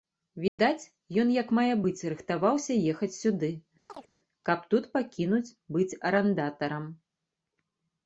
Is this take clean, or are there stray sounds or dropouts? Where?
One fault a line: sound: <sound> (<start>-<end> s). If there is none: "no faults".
sound: dropout (0.5-0.6 s)
sound: chirp (3.9-4.1 s)